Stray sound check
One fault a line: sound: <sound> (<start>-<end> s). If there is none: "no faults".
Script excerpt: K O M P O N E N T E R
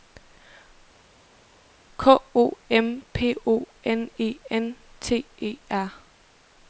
no faults